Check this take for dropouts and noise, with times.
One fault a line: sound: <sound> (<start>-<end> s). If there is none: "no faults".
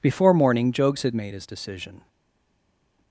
no faults